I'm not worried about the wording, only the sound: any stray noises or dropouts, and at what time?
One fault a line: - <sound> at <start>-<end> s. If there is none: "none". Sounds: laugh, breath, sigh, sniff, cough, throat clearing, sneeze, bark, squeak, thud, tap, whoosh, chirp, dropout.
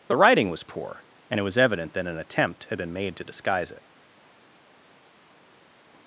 none